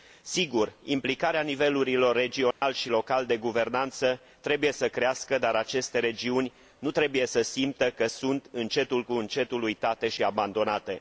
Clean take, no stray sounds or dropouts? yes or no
no